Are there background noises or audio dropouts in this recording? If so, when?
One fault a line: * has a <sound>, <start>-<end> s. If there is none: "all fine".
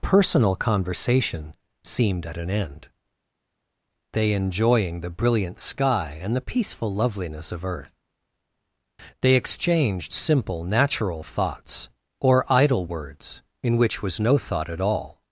all fine